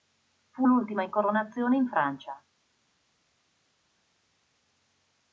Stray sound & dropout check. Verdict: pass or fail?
pass